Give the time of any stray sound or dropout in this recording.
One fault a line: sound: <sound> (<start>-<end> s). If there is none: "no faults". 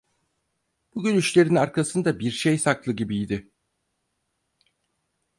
no faults